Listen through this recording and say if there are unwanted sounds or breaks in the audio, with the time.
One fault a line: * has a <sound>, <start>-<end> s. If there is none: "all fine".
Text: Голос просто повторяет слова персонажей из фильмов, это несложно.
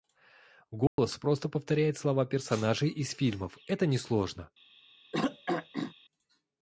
* has a dropout, 0.9-1.0 s
* has a throat clearing, 5.1-5.9 s